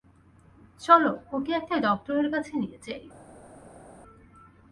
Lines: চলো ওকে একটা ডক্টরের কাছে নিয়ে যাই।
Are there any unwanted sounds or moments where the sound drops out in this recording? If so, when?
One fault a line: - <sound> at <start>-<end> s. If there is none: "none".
none